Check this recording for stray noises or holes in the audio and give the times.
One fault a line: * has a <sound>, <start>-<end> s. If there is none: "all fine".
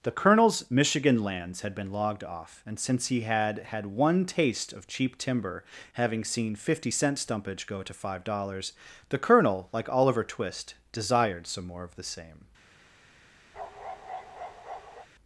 * has a bark, 13.5-15.1 s